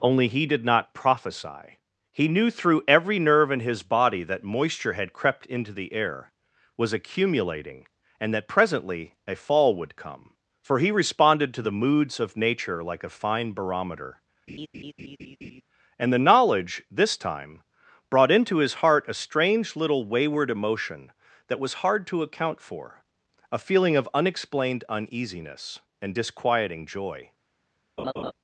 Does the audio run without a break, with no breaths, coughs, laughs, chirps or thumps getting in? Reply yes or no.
no